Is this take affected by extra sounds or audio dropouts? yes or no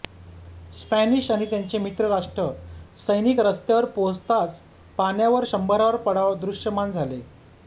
no